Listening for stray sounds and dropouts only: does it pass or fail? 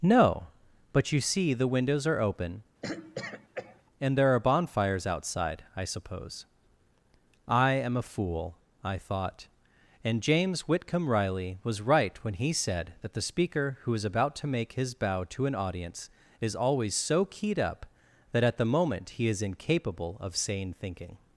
fail